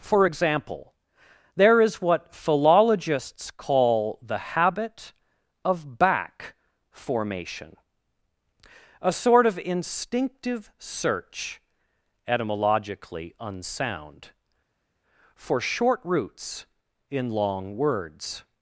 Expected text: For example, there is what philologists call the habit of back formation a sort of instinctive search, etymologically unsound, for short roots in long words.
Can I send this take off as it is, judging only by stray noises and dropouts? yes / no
yes